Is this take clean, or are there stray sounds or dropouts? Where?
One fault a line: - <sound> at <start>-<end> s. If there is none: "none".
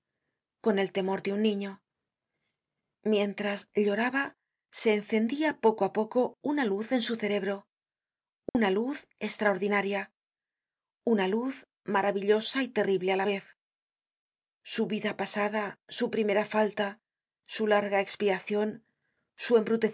- dropout at 8.5-8.5 s